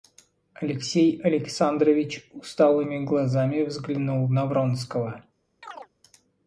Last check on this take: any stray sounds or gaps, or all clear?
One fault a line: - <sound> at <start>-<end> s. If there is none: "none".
- chirp at 5.6-5.9 s